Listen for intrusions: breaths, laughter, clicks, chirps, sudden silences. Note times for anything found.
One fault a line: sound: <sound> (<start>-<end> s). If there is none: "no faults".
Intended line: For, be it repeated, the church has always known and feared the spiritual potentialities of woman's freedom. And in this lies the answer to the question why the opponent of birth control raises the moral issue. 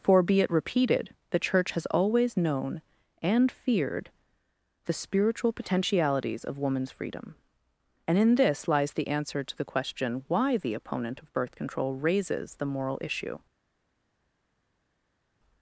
no faults